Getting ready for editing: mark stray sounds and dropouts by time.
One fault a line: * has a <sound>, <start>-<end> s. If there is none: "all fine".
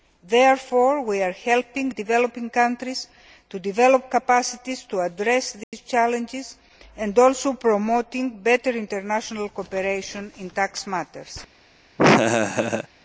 * has a dropout, 5.6-5.7 s
* has a laugh, 12.0-12.9 s